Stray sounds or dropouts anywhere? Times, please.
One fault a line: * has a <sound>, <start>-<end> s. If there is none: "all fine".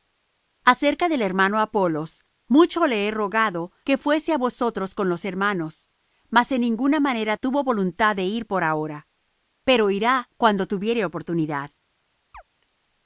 * has a chirp, 12.3-12.4 s